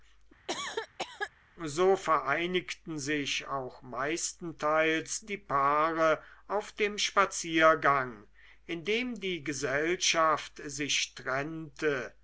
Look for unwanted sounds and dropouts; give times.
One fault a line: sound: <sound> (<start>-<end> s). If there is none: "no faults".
sound: cough (0.5-1.3 s)